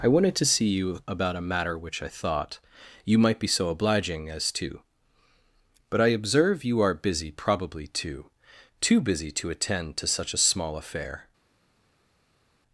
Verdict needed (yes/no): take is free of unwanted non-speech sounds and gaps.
yes